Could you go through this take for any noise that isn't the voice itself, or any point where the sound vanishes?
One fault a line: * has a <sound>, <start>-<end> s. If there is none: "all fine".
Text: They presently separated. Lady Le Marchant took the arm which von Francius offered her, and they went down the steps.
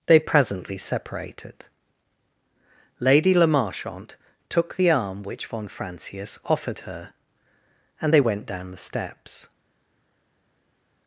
all fine